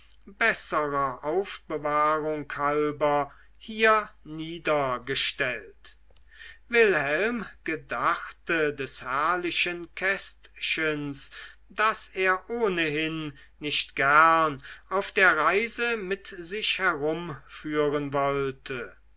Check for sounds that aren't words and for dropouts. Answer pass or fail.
pass